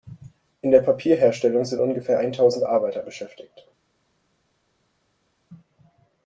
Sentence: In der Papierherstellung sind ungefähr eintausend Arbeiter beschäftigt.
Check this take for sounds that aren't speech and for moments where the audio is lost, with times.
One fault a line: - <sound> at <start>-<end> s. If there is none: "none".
none